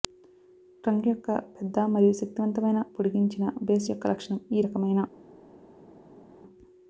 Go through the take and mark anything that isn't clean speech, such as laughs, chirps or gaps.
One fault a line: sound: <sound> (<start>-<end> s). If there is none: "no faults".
no faults